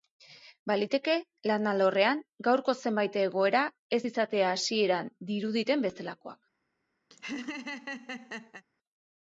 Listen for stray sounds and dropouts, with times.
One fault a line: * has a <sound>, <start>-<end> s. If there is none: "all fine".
* has a laugh, 7.1-8.6 s